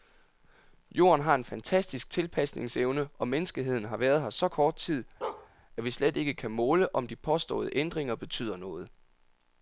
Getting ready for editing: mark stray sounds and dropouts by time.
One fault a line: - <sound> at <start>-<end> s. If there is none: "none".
- bark at 5.2-5.5 s